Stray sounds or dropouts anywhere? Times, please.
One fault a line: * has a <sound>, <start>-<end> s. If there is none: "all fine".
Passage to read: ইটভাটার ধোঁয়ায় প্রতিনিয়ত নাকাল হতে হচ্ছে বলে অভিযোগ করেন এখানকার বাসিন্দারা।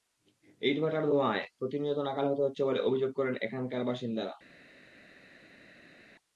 all fine